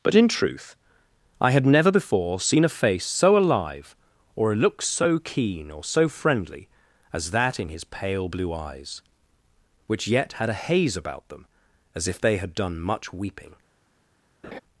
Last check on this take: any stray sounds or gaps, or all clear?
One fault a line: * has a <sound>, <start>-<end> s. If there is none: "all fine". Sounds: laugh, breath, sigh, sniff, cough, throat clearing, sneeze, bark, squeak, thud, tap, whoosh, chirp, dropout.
* has a laugh, 14.4-14.6 s